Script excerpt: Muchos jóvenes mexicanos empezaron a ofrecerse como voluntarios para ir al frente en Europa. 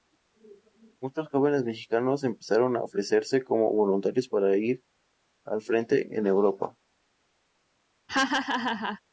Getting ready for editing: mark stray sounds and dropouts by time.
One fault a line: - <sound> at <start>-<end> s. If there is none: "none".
- laugh at 8.1-9.0 s